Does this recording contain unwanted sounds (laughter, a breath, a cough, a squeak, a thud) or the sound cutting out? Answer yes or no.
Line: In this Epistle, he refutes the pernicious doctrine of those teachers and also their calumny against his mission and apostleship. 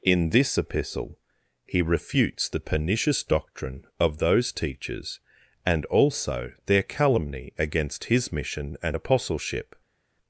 no